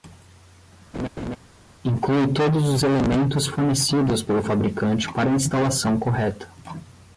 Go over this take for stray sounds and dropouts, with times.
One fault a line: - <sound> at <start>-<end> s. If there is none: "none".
- laugh at 0.9-1.4 s